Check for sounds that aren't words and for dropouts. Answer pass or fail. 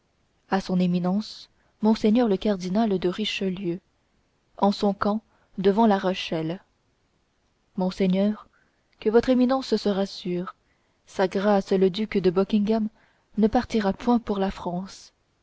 pass